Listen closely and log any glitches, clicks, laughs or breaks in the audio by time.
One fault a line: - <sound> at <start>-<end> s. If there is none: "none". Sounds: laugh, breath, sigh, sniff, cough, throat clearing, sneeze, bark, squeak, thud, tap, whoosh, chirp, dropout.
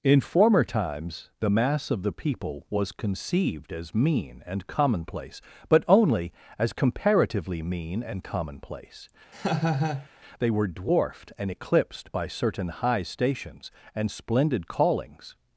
- laugh at 9.3-10.1 s